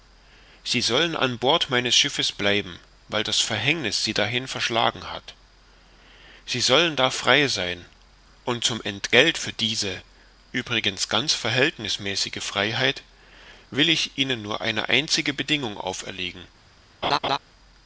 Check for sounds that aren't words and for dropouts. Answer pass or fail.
fail